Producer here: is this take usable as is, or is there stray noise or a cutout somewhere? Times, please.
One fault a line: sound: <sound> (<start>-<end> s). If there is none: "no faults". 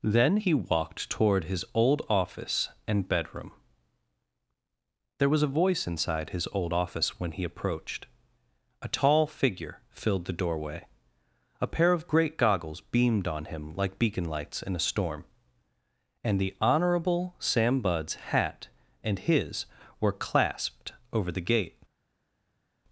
no faults